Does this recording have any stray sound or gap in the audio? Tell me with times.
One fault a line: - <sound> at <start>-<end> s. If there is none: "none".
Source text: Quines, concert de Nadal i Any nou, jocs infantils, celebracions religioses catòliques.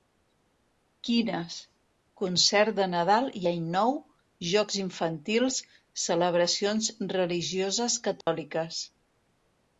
- dropout at 8.2-8.3 s